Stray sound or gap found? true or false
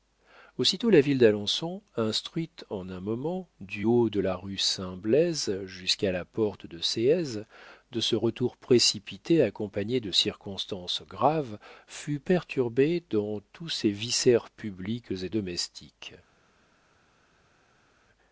false